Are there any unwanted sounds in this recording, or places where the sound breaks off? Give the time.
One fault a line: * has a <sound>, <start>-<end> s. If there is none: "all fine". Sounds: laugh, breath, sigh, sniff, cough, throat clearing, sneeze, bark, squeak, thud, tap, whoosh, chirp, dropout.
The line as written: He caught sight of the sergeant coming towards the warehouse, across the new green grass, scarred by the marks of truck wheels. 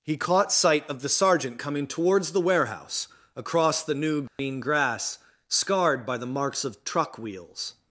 * has a dropout, 4.3-4.4 s